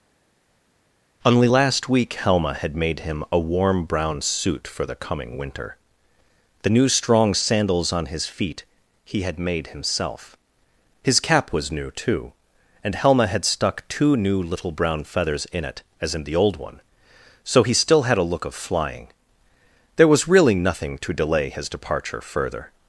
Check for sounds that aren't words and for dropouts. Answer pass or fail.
pass